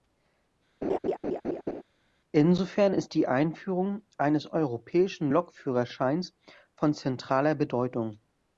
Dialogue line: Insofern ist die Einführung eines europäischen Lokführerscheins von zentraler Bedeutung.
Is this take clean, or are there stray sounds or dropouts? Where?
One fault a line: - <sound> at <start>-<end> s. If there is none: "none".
- laugh at 0.8-1.8 s